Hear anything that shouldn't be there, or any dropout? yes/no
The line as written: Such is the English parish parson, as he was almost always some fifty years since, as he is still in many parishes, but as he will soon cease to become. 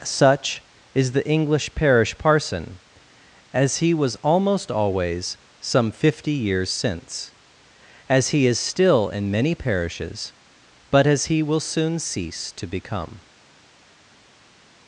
no